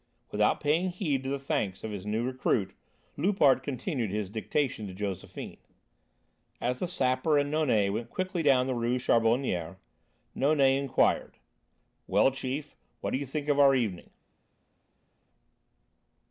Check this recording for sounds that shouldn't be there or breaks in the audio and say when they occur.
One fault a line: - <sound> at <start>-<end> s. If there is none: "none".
none